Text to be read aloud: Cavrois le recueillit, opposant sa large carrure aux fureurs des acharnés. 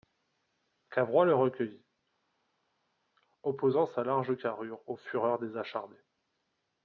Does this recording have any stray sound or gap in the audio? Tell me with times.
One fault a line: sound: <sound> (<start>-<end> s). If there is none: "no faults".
no faults